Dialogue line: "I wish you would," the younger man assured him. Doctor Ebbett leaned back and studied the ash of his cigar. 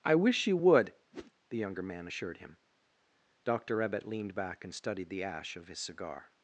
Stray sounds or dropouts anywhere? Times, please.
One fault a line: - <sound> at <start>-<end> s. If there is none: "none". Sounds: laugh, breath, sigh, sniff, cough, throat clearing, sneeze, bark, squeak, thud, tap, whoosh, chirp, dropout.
- whoosh at 1.1-1.3 s